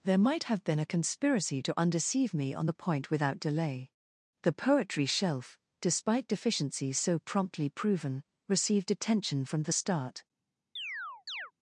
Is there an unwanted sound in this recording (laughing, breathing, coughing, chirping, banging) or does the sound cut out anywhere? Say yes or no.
yes